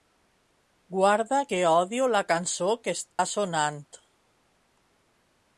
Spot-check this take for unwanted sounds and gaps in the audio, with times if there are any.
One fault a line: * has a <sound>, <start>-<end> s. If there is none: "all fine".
* has a dropout, 3.1-3.2 s